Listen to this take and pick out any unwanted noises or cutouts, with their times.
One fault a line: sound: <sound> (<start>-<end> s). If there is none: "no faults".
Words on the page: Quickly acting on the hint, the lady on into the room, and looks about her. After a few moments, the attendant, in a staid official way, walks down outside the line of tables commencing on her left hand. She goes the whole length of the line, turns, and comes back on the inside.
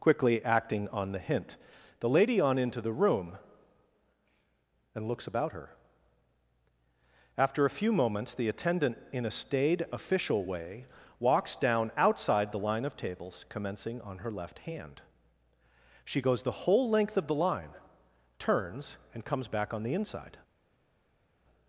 no faults